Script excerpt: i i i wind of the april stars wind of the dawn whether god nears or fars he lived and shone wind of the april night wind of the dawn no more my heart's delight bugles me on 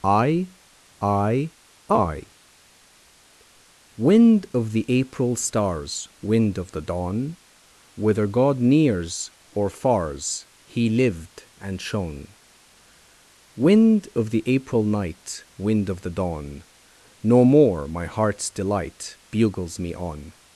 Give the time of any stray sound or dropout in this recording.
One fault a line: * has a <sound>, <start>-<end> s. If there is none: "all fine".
all fine